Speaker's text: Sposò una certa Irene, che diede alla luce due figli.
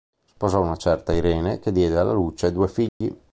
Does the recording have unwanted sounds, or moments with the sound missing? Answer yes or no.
yes